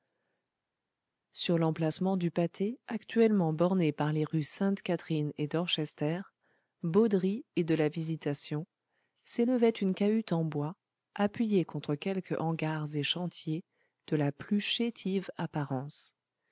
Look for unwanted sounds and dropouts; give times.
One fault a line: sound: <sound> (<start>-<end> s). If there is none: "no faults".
no faults